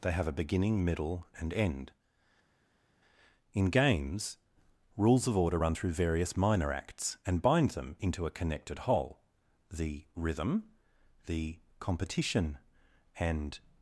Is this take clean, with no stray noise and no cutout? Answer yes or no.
yes